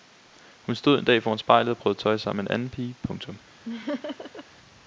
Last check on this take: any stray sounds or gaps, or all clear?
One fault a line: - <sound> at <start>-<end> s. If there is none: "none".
- laugh at 3.7-4.5 s